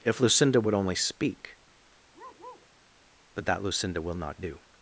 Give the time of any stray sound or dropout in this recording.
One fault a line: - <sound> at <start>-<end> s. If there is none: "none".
- bark at 2.1-2.7 s